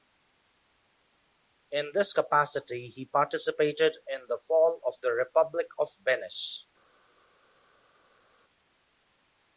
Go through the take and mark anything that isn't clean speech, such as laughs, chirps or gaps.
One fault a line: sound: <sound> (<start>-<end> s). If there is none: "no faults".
no faults